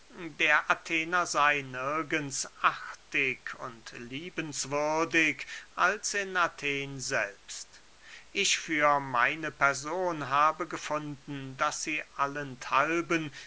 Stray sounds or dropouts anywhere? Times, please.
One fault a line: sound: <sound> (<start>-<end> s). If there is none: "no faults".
no faults